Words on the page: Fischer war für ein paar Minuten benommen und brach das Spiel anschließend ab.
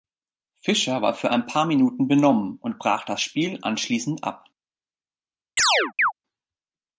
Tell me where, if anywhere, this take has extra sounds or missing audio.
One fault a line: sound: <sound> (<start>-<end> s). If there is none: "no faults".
sound: chirp (5.6-6.1 s)